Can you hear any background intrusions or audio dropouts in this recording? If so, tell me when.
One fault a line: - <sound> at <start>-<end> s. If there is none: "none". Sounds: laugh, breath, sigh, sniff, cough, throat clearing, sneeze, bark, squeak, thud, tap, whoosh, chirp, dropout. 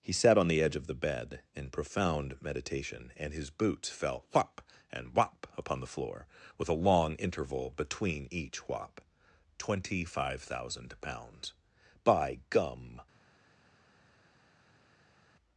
none